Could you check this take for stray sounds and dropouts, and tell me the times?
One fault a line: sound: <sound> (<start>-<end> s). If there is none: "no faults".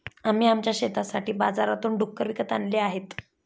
no faults